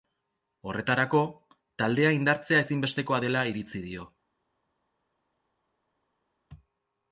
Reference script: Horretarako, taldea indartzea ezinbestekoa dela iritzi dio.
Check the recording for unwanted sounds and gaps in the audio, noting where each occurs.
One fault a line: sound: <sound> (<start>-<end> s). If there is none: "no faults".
no faults